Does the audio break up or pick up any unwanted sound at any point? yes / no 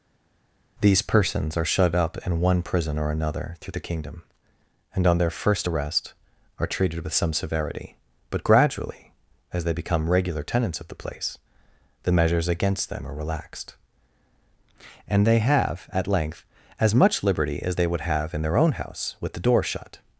no